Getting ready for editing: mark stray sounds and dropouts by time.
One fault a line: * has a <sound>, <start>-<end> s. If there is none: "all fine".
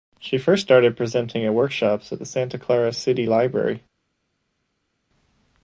all fine